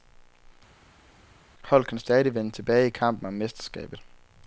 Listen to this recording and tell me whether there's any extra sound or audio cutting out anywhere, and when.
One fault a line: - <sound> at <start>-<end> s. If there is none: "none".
none